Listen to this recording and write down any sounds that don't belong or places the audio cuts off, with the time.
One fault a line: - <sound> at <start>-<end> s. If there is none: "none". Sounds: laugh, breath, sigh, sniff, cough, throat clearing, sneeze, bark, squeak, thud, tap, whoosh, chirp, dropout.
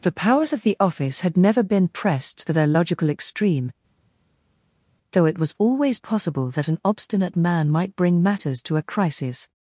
none